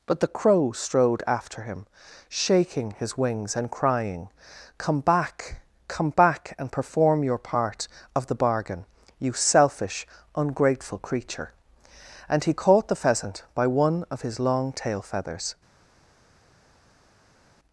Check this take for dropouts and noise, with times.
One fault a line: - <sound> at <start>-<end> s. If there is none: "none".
none